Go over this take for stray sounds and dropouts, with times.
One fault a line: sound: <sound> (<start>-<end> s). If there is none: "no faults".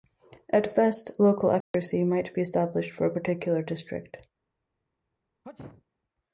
sound: dropout (1.6-1.7 s)
sound: sneeze (5.4-5.8 s)